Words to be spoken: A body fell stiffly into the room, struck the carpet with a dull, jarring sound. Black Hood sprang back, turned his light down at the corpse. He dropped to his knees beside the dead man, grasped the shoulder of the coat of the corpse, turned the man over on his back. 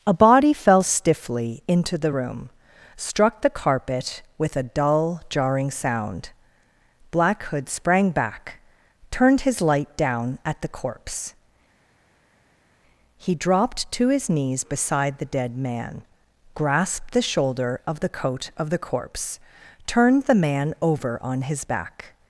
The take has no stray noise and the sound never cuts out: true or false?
true